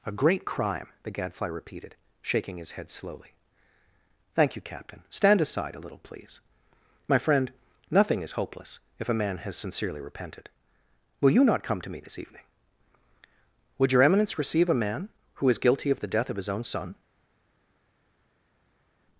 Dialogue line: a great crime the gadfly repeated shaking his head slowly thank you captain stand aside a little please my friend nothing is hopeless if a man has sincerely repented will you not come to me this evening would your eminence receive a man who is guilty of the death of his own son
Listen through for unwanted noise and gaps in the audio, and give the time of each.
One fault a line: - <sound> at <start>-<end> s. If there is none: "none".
none